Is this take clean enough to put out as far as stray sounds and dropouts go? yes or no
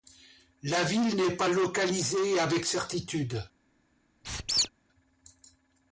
no